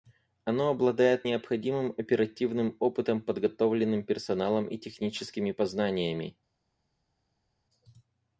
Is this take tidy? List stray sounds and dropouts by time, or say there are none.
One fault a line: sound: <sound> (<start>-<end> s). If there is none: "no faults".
no faults